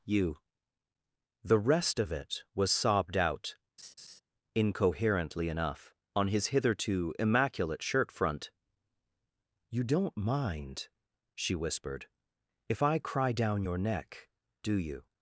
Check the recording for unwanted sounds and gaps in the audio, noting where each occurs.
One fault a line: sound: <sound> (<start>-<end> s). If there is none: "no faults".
sound: laugh (3.8-4.2 s)